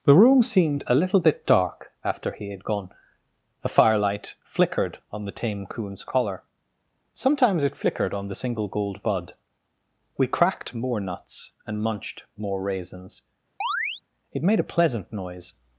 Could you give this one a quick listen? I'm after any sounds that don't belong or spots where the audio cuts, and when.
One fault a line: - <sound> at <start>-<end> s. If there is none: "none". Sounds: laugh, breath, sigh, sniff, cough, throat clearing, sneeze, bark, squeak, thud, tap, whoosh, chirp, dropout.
- chirp at 13.6-14.0 s